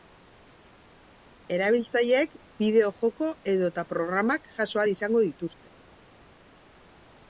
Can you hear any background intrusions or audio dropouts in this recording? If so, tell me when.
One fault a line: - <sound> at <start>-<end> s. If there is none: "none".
none